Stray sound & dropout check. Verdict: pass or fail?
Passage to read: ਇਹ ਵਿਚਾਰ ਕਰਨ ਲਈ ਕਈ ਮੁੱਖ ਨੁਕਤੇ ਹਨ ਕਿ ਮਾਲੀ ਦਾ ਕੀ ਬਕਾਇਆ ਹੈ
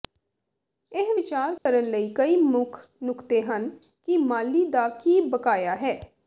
fail